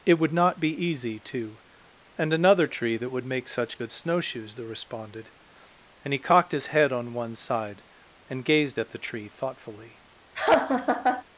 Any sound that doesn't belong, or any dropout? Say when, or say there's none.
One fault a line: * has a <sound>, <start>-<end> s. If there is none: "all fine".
* has a laugh, 10.3-11.2 s